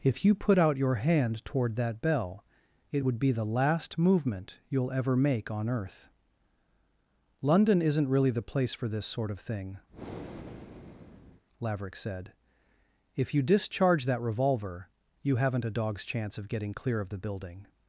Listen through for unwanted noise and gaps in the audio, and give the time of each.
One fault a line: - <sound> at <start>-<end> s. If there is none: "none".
- breath at 9.9-11.4 s